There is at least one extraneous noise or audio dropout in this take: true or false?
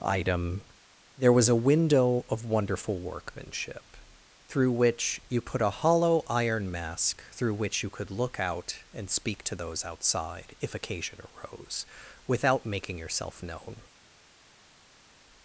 false